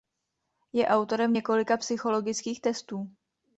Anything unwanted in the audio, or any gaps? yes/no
no